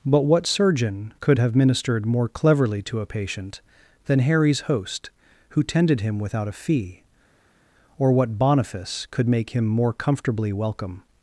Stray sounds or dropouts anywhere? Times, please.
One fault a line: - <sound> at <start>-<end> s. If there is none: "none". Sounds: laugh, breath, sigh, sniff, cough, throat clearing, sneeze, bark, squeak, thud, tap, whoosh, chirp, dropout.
none